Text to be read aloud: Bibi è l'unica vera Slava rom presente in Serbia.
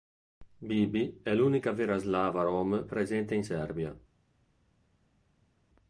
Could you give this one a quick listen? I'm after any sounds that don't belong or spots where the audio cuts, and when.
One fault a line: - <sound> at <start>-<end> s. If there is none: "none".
none